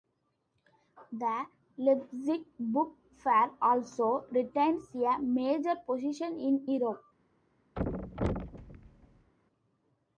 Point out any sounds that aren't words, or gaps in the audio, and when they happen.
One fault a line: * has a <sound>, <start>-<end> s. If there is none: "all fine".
* has a thud, 7.8-9.3 s